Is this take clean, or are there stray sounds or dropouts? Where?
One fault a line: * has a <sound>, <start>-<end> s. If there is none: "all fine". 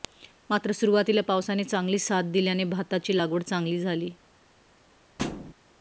* has a thud, 5.2-5.5 s